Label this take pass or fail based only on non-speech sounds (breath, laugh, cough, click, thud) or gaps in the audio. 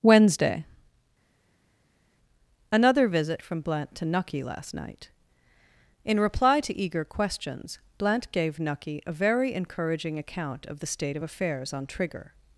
pass